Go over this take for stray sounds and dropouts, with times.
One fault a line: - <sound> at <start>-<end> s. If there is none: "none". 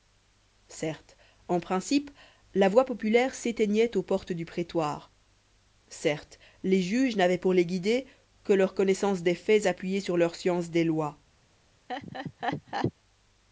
- laugh at 11.9-12.9 s